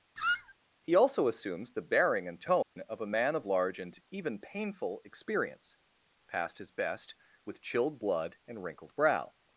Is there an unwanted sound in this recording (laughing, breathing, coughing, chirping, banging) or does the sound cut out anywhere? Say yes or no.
yes